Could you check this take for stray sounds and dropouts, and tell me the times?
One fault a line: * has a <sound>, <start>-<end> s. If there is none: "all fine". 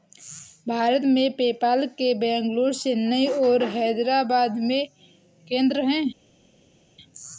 all fine